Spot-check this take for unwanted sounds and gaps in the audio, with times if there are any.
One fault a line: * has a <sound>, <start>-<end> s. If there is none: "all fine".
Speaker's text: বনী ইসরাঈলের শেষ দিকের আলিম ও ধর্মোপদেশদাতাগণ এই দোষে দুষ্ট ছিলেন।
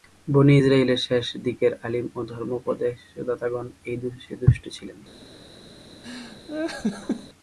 * has a laugh, 6.0-7.3 s